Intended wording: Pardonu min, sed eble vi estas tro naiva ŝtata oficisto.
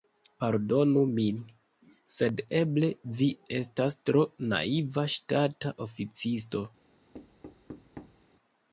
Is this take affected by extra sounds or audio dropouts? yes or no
yes